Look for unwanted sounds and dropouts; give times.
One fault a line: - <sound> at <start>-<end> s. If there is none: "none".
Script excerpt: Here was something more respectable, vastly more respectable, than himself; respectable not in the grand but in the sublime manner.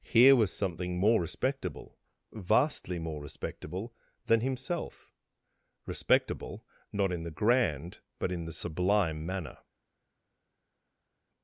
none